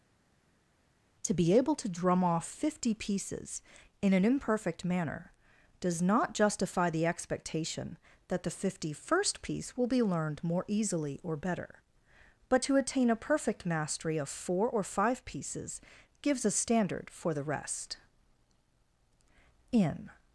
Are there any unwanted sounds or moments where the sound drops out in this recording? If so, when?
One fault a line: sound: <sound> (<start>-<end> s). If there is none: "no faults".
no faults